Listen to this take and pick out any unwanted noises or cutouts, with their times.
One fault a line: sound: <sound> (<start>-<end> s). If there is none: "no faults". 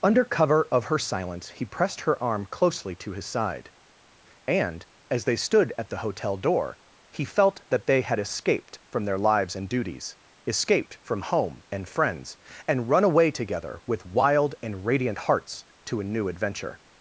no faults